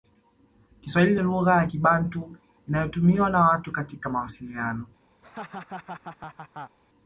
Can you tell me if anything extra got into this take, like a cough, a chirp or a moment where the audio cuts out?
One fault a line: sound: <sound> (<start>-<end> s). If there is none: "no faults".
sound: laugh (5.2-6.8 s)